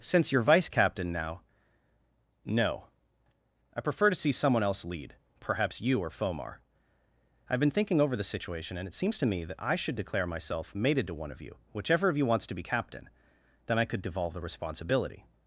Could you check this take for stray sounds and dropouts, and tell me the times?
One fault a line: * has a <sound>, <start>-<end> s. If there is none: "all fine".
all fine